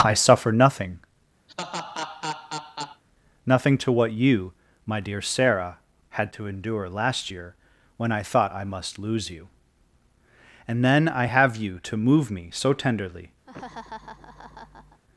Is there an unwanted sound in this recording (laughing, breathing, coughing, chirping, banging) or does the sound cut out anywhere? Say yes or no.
yes